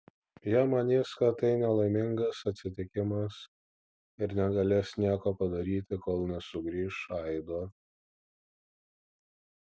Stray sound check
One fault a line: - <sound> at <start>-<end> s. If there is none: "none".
none